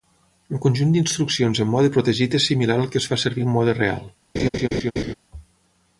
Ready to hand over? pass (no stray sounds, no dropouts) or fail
fail